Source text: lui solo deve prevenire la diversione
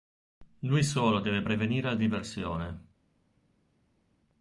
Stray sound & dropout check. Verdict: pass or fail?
pass